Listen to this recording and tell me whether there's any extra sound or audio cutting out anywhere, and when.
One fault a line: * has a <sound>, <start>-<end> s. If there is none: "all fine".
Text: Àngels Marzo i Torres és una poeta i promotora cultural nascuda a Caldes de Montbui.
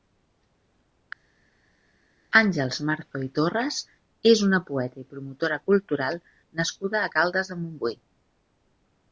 all fine